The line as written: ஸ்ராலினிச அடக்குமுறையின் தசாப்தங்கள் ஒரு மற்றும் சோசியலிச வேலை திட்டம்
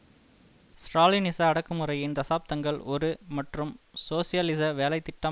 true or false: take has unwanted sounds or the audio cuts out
false